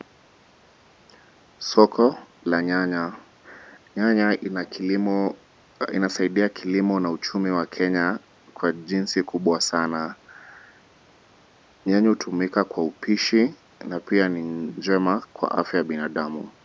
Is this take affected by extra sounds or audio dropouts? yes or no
no